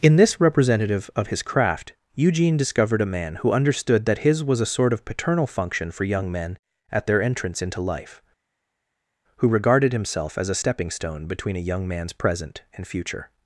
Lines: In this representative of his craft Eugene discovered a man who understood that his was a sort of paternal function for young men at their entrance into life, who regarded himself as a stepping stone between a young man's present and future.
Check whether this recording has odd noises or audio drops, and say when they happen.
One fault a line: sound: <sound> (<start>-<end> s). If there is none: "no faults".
no faults